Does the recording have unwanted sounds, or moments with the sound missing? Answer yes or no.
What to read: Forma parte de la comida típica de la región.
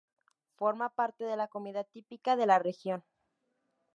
no